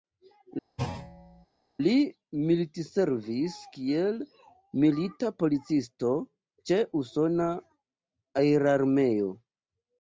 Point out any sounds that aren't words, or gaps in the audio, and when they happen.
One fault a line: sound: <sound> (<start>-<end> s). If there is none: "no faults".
sound: thud (0.8-1.5 s)